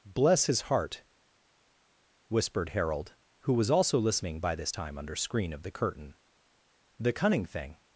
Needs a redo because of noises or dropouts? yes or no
no